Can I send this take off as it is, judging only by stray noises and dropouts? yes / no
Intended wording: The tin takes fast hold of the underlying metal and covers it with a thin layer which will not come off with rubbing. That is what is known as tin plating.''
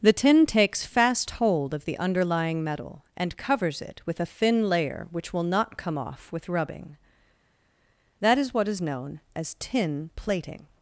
yes